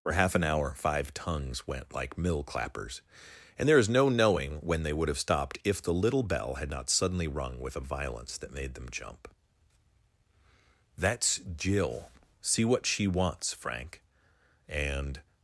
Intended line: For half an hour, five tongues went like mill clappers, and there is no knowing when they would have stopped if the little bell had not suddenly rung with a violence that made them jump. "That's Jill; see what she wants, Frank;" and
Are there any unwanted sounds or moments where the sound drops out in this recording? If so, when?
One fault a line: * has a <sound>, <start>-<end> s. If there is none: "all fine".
all fine